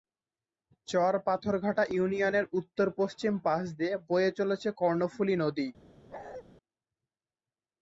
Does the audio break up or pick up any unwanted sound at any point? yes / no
yes